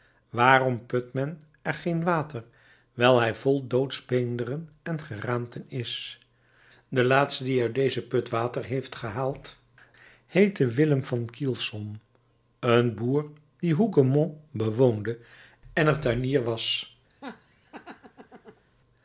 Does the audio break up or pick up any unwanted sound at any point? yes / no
yes